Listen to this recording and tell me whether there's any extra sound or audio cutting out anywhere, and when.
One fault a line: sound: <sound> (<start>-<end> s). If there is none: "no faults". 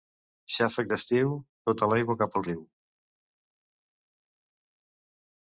no faults